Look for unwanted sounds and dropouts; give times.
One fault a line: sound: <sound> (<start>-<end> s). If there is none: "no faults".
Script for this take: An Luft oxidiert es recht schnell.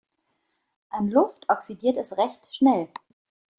no faults